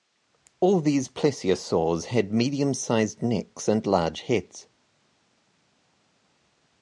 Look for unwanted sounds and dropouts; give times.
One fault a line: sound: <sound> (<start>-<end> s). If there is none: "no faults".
no faults